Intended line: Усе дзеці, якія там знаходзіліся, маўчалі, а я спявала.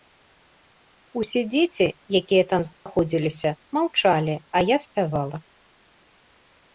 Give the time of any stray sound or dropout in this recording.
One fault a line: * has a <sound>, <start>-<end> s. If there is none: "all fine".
* has a dropout, 2.7-2.9 s